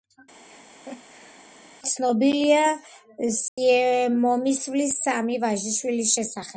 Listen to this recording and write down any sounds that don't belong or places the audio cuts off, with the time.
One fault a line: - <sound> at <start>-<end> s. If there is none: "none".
- laugh at 0.5-1.5 s
- dropout at 3.5-3.6 s